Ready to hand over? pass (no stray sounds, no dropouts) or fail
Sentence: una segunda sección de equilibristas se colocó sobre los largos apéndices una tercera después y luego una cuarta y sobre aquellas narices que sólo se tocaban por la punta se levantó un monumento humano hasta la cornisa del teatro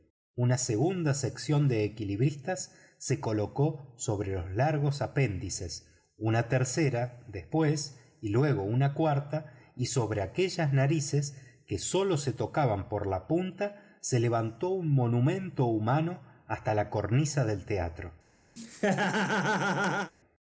fail